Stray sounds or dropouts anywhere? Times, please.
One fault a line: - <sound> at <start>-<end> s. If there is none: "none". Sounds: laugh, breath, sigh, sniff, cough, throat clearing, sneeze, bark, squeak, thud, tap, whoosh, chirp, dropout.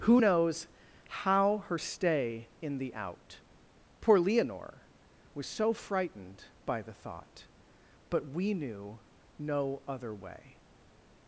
none